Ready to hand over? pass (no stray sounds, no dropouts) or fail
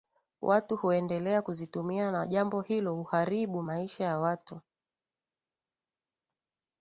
pass